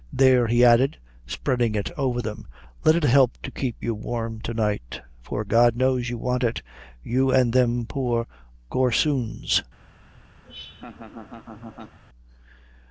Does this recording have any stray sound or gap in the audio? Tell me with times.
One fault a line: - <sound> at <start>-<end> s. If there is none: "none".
- laugh at 10.4-12.0 s